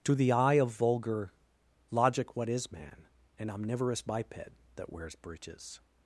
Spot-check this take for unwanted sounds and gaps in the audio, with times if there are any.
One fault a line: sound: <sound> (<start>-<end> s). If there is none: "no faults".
no faults